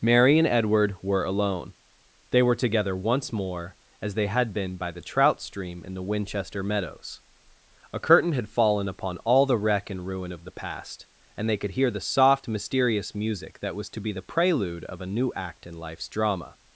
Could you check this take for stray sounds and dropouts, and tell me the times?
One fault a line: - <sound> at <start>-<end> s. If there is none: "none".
none